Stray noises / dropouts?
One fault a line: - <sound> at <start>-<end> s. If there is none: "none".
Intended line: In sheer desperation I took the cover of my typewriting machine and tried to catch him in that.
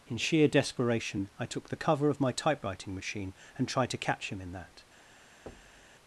- thud at 5.5-5.9 s